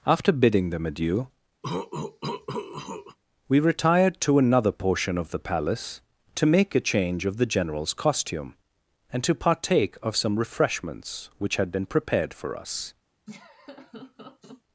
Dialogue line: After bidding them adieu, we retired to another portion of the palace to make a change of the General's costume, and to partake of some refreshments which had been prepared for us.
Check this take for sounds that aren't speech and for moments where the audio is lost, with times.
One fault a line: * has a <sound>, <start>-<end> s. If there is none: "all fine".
* has a cough, 1.6-3.2 s
* has a laugh, 13.3-14.6 s